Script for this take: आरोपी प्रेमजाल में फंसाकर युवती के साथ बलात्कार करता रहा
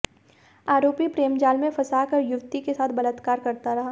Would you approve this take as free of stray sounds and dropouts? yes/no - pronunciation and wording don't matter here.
yes